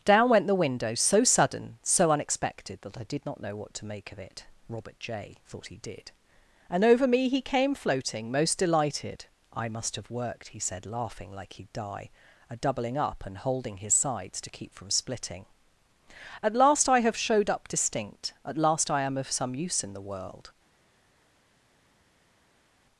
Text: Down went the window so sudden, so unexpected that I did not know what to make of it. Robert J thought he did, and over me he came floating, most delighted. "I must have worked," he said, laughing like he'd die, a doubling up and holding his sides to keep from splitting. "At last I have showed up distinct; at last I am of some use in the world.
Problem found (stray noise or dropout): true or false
false